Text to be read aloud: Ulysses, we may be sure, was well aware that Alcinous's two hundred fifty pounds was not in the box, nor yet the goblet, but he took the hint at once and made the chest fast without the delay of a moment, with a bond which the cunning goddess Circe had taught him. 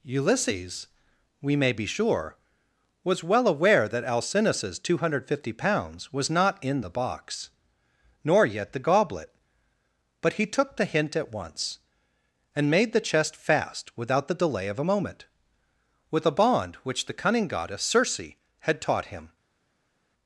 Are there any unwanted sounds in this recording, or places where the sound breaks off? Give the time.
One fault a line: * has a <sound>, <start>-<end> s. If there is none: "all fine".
all fine